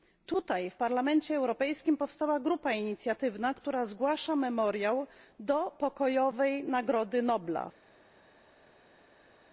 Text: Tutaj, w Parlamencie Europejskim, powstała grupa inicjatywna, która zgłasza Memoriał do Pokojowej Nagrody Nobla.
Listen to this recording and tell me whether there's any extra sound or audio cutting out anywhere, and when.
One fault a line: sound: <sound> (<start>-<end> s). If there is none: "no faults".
no faults